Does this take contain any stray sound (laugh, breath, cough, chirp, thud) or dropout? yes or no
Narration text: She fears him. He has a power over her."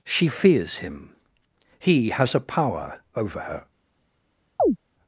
yes